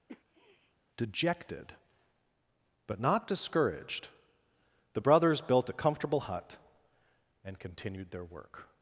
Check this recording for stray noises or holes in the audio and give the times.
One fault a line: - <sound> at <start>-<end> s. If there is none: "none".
- sniff at 0.1-0.7 s